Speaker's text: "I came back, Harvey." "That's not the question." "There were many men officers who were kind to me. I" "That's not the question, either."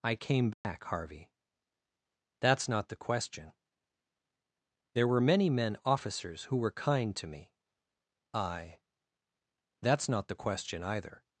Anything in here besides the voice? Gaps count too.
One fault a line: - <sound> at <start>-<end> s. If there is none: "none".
- dropout at 0.5-0.6 s